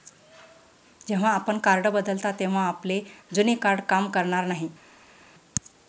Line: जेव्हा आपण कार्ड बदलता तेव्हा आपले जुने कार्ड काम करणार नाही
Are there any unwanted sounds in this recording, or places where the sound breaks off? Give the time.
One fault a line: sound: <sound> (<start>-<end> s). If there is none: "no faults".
no faults